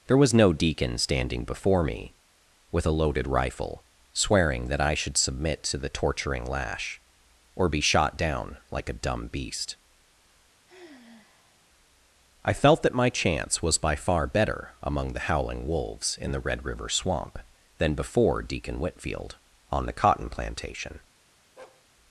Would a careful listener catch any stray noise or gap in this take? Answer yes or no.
yes